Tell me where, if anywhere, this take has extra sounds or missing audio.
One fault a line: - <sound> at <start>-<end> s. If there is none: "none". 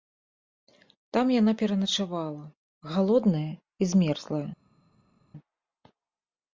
none